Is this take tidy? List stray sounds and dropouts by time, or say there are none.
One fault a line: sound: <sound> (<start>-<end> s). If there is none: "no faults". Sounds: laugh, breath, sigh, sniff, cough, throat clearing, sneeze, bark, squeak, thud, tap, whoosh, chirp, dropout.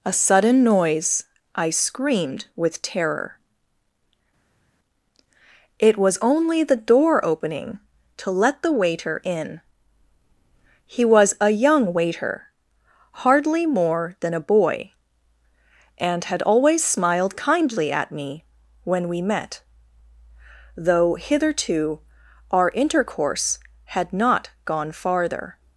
no faults